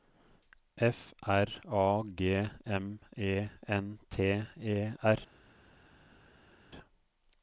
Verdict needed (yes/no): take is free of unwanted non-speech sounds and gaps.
yes